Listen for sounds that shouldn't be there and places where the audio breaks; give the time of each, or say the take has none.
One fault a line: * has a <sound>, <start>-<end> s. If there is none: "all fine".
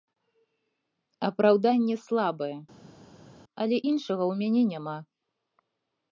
all fine